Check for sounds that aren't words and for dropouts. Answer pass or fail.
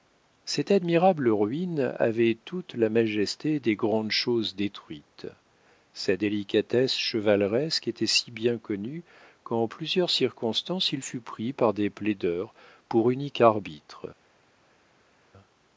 pass